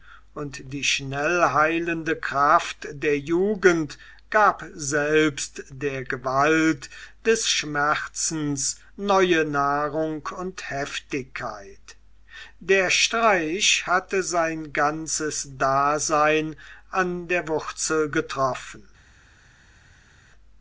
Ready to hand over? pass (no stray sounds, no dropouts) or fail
pass